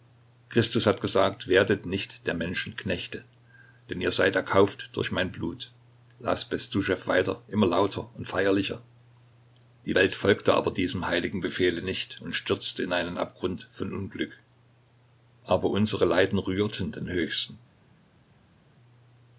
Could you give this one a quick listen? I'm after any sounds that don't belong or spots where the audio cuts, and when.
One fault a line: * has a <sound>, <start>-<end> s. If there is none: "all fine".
all fine